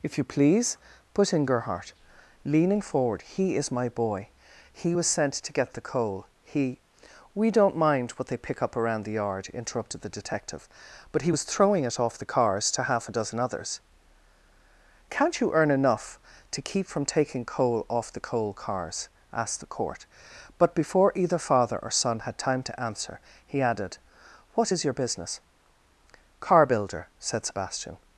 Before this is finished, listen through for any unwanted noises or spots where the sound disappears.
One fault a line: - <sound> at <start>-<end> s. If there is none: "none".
none